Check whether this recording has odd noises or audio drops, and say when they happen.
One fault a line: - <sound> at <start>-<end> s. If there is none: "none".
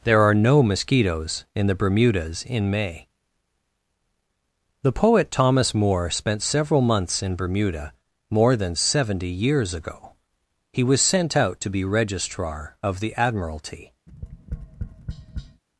- tap at 14.1-15.6 s